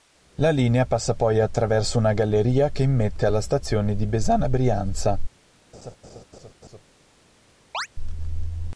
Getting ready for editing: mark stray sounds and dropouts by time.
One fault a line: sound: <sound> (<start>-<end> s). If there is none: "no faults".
sound: laugh (5.7-6.8 s)
sound: chirp (7.7-7.9 s)